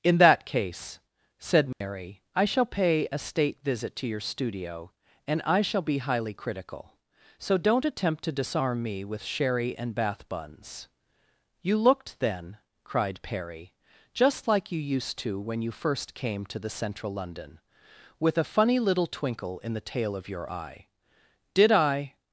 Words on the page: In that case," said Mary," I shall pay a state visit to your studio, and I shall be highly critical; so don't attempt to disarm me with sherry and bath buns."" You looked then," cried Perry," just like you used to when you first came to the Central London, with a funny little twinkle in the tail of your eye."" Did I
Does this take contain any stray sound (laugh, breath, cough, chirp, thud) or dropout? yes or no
yes